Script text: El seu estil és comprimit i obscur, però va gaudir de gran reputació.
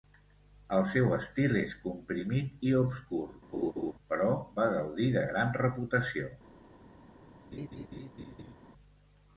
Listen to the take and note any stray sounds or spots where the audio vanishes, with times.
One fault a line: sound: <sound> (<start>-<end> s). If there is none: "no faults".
sound: laugh (3.5-3.9 s)
sound: laugh (7.5-8.5 s)